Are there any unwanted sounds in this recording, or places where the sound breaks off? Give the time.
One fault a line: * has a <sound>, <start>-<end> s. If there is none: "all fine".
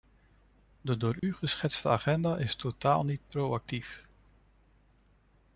* has a dropout, 1.2-1.2 s